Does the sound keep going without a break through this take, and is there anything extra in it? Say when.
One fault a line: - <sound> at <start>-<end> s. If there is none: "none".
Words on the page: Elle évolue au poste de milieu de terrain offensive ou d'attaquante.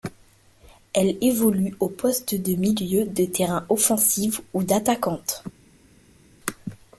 none